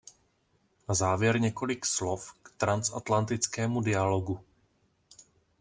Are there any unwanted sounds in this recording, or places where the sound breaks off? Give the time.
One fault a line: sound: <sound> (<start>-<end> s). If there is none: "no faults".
no faults